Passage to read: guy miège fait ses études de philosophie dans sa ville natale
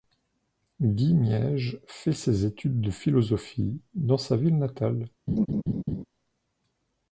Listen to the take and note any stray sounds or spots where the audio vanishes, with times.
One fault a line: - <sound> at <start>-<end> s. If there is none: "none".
- laugh at 5.3-6.0 s